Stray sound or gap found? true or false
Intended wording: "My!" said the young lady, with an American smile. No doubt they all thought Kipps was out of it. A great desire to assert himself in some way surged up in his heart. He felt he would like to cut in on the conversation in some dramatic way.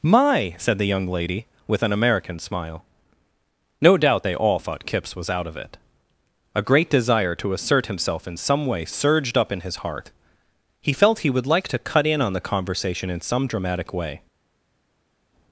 false